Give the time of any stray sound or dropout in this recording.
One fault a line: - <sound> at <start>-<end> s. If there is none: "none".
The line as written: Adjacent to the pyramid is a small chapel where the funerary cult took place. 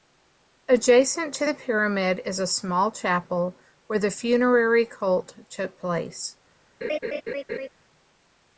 - laugh at 6.8-7.7 s